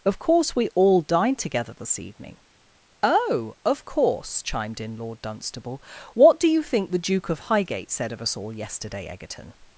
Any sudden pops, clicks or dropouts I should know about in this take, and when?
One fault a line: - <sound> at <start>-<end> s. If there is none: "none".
none